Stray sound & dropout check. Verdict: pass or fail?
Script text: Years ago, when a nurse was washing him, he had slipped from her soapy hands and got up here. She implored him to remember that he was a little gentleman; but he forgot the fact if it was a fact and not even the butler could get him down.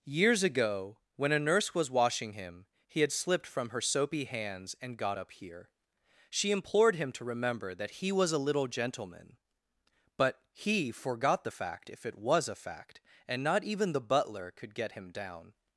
pass